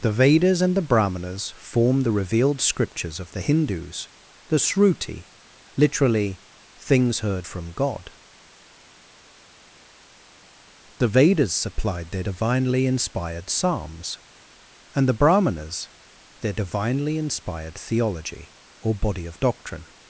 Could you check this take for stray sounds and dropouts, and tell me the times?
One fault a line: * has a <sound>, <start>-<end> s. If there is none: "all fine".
all fine